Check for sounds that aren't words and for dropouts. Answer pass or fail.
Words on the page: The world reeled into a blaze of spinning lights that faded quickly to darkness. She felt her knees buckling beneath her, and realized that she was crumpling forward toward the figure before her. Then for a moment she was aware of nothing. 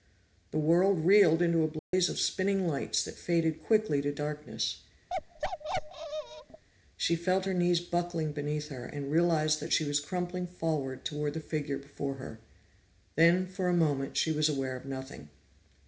fail